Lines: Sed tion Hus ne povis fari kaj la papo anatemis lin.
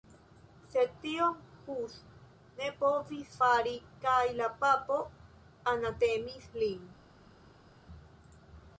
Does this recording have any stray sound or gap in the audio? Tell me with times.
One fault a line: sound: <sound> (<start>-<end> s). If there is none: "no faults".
no faults